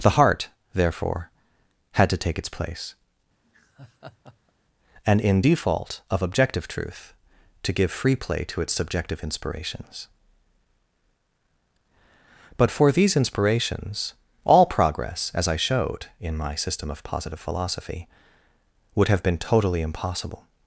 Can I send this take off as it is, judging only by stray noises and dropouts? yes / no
no